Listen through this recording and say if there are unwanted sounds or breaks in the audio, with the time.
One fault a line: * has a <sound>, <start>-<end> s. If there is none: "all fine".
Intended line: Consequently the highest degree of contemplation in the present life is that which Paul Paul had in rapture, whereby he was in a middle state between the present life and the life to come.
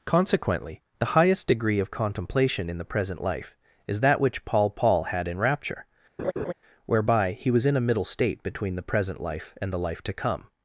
* has a laugh, 6.2-6.5 s